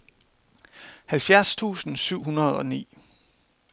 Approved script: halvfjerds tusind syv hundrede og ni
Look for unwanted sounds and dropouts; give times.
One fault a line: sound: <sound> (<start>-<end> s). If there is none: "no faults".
no faults